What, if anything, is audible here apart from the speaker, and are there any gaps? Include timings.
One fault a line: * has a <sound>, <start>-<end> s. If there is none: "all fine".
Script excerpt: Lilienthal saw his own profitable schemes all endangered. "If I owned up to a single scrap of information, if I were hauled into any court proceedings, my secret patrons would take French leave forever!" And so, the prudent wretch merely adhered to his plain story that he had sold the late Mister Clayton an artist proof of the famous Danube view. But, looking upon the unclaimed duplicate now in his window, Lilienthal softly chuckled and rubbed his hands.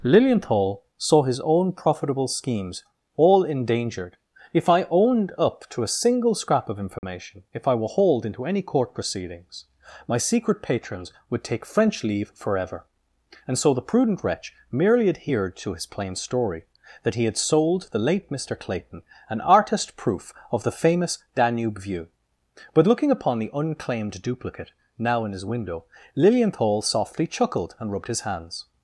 * has a dropout, 7.0-7.0 s